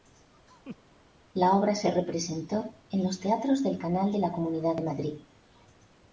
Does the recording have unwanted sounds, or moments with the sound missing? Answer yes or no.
yes